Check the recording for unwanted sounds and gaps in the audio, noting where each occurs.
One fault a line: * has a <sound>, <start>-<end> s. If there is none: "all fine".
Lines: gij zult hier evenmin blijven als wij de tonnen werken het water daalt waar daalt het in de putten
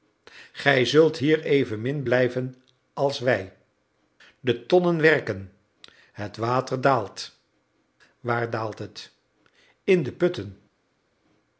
all fine